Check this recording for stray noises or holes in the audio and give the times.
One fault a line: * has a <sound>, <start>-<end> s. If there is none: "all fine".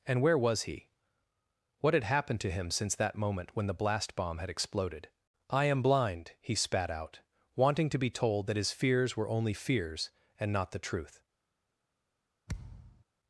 * has a thud, 12.5-13.0 s